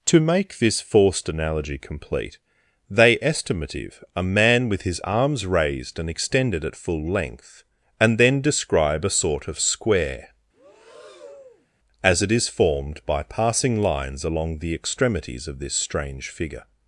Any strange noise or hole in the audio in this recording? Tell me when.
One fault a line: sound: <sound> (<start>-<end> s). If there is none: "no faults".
sound: breath (10.5-11.7 s)